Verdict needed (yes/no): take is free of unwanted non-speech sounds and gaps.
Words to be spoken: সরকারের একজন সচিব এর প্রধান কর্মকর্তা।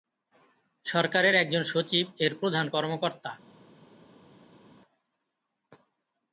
yes